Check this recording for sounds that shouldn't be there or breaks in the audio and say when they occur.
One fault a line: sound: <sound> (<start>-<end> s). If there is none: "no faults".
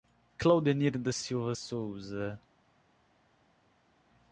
no faults